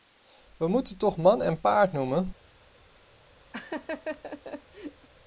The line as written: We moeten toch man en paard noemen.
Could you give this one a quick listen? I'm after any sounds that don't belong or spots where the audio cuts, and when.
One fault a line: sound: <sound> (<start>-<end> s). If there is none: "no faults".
sound: laugh (3.5-5.1 s)